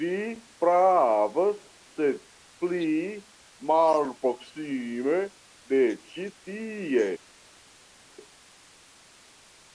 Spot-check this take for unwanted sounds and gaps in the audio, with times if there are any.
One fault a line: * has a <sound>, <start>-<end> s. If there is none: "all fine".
all fine